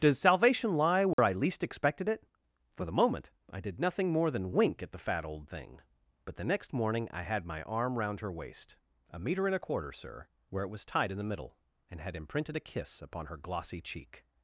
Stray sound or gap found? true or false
true